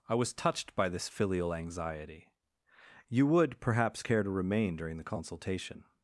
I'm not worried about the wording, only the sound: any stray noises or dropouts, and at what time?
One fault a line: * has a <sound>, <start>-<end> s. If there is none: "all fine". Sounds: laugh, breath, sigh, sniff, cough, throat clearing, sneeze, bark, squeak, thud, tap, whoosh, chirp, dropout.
all fine